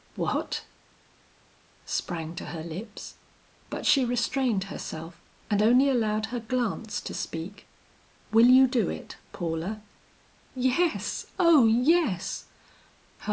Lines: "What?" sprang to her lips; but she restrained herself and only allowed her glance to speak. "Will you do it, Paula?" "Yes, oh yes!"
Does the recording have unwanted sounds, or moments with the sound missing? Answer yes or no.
no